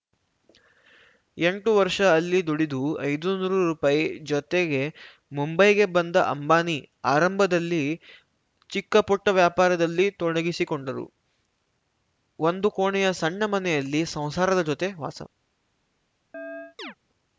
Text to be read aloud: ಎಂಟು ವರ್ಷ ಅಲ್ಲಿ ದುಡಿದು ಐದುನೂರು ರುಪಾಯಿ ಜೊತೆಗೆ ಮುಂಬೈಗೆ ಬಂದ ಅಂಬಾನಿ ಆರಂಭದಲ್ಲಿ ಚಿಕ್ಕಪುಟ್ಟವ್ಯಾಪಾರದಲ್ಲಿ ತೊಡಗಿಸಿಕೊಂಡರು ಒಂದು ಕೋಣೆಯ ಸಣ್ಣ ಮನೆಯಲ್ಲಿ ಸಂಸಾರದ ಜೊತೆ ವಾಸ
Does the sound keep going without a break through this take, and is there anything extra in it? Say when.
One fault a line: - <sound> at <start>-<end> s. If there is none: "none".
- chirp at 16.3-16.9 s